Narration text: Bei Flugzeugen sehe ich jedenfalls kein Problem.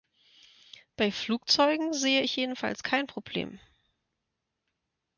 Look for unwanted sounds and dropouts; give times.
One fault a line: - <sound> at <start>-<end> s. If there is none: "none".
none